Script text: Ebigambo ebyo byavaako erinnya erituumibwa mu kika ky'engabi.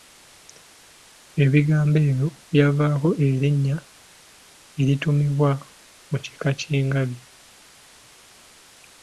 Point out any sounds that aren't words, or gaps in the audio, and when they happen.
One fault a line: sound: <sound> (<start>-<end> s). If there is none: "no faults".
no faults